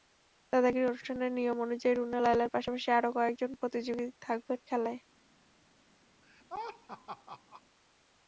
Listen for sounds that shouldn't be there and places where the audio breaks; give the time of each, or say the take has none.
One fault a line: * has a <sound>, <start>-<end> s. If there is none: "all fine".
* has a laugh, 6.2-7.6 s